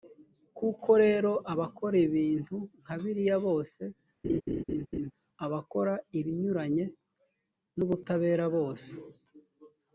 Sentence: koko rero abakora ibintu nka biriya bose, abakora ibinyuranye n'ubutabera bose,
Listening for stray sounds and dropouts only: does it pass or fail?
fail